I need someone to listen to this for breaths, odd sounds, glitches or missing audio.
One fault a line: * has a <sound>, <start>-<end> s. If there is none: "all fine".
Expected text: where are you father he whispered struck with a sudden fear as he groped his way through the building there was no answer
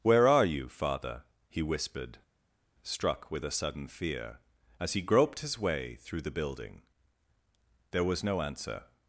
all fine